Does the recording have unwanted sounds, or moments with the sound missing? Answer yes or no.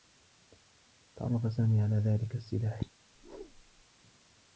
yes